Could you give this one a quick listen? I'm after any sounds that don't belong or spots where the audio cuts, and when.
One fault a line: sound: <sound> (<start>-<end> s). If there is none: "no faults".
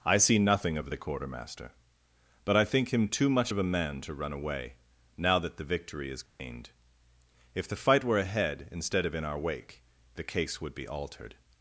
sound: dropout (6.3-6.4 s)